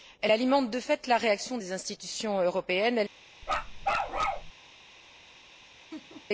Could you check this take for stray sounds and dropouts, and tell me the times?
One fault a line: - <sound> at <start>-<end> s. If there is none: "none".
- bark at 3.4-4.5 s
- laugh at 5.9-6.3 s